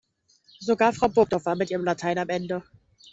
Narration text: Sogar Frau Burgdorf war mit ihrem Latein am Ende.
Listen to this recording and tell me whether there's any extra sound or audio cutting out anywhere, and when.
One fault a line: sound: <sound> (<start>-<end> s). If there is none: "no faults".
no faults